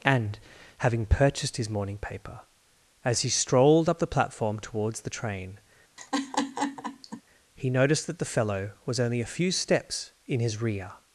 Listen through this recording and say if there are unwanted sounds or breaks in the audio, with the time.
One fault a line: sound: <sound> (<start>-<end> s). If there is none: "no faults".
sound: laugh (6.0-7.2 s)